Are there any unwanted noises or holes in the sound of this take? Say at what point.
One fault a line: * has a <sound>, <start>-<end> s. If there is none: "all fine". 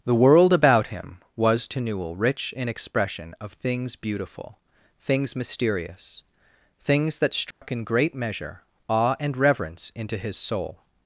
* has a dropout, 7.5-7.6 s